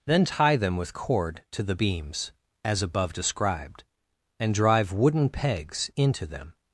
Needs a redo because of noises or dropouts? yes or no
no